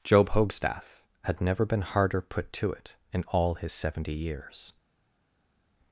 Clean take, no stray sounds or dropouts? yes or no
yes